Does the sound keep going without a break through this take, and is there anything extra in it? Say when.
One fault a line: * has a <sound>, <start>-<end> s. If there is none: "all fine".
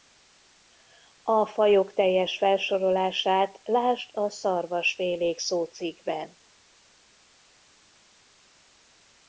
all fine